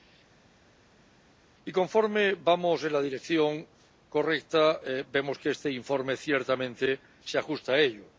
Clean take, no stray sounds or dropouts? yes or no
yes